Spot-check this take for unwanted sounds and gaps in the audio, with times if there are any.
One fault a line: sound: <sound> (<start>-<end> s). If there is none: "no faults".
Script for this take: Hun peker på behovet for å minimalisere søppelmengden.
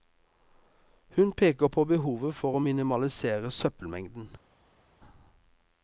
no faults